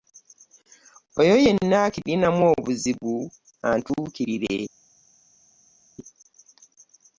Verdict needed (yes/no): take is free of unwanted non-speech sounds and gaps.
yes